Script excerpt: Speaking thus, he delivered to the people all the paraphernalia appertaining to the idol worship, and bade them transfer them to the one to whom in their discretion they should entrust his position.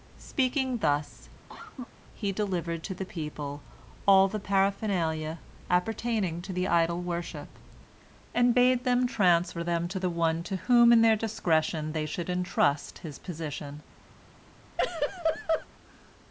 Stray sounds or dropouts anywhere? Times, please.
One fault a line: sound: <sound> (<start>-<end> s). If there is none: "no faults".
sound: cough (1.5-1.9 s)
sound: laugh (14.8-15.7 s)